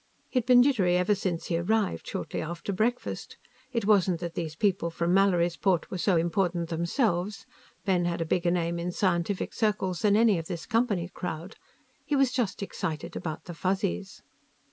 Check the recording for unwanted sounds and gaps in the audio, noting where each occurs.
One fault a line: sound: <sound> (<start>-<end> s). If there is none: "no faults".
no faults